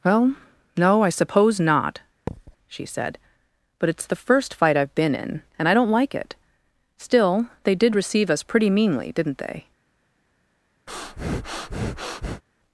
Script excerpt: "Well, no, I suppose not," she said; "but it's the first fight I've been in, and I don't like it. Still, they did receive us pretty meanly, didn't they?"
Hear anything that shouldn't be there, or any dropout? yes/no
yes